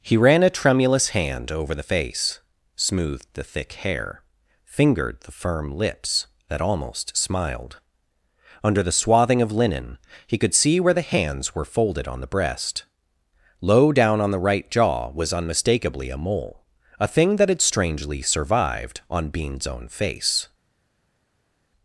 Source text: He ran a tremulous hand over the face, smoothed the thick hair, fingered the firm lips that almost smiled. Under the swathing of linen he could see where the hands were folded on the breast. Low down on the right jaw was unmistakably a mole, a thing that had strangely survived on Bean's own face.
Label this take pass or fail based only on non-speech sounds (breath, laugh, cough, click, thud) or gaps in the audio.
pass